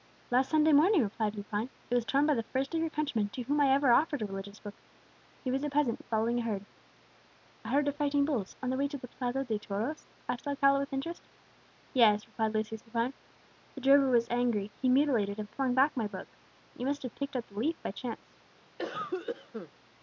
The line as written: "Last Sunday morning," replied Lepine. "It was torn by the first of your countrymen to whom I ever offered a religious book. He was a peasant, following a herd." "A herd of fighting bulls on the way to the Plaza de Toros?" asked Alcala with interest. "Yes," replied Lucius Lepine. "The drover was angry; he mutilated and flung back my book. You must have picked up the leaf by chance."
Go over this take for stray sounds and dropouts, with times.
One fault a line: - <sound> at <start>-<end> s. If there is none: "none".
- cough at 18.8-19.7 s